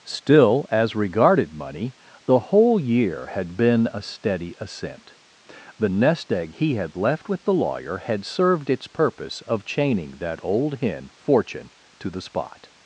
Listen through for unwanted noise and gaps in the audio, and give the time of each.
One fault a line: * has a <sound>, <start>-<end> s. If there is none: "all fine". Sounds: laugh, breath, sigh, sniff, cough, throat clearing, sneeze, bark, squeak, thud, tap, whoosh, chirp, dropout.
all fine